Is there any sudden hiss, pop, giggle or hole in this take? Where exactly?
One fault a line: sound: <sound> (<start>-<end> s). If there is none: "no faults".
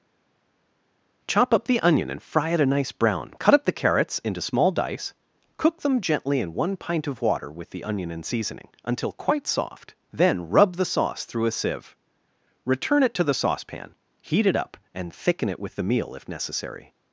no faults